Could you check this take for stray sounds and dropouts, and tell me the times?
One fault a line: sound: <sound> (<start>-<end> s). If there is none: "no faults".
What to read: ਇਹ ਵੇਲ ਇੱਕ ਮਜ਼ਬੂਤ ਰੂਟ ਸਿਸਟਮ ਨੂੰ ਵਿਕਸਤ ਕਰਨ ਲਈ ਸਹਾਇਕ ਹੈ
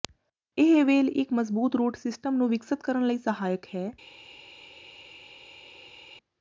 no faults